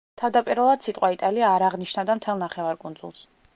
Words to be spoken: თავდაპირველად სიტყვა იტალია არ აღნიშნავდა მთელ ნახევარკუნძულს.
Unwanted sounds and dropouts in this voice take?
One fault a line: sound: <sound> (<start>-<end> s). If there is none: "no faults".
no faults